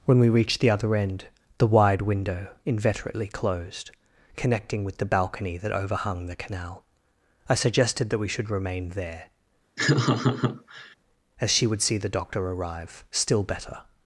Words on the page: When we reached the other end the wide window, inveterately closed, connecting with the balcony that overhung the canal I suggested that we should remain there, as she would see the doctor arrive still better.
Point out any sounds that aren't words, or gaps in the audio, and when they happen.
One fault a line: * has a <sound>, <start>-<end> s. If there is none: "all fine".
* has a laugh, 9.8-11.0 s